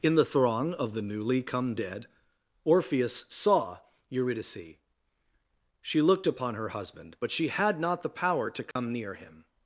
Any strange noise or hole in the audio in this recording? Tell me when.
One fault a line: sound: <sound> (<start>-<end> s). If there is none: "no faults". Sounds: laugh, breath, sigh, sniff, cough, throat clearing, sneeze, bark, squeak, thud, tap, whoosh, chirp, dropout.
sound: dropout (8.7-8.8 s)